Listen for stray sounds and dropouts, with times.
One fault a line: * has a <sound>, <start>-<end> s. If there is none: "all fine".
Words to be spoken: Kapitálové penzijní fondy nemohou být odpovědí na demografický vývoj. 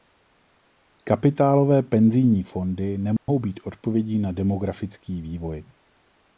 * has a dropout, 3.2-3.3 s